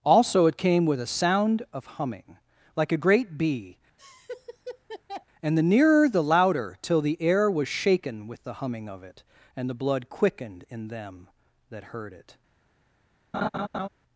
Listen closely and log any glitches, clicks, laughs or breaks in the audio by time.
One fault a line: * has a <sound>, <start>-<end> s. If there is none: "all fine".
* has a laugh, 4.0-5.3 s
* has a laugh, 13.3-13.9 s